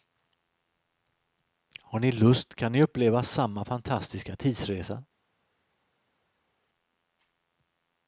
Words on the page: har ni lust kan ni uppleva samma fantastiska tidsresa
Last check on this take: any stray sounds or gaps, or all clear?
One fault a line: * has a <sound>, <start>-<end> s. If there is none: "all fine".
all fine